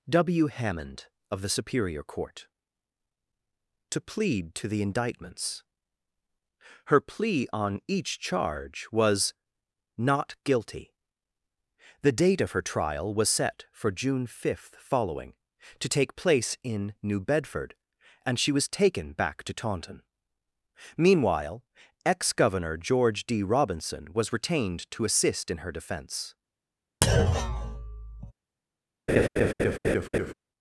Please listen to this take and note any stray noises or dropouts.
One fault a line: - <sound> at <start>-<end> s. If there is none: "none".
- thud at 27.0-28.3 s
- laugh at 29.1-30.3 s